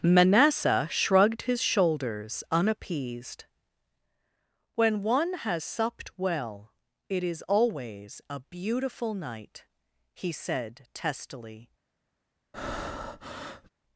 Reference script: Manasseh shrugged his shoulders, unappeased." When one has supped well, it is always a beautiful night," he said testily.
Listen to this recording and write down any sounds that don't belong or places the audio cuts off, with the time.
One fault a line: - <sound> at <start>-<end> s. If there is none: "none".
- breath at 12.5-13.7 s